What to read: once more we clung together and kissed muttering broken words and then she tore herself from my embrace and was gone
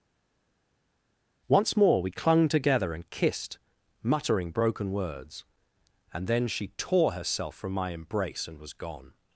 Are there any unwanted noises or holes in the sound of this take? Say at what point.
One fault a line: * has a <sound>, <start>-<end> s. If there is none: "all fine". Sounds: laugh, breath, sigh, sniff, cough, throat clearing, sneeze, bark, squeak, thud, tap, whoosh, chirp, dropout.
all fine